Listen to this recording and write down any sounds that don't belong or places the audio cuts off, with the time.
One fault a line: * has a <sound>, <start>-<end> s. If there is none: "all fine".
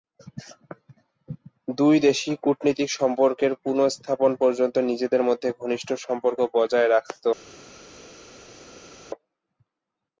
all fine